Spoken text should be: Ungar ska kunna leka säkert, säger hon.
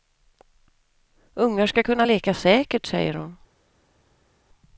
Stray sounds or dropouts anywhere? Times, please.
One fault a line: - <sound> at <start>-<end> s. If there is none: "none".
none